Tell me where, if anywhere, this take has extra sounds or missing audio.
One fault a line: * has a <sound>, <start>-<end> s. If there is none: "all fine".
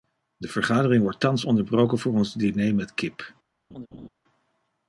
* has a laugh, 3.7-4.1 s